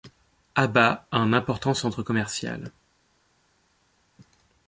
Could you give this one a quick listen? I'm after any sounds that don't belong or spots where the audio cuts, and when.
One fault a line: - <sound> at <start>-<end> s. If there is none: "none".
none